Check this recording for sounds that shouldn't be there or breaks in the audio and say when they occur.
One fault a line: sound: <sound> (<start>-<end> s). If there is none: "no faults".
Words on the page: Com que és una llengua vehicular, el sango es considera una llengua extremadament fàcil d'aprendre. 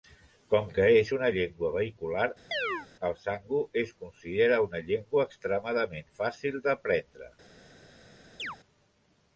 sound: chirp (2.5-2.9 s)
sound: chirp (8.4-8.6 s)